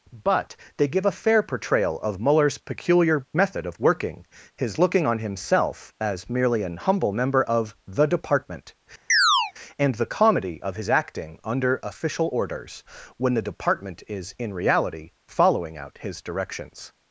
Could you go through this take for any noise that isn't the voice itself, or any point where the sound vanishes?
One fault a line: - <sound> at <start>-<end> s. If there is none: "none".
- chirp at 9.1-9.5 s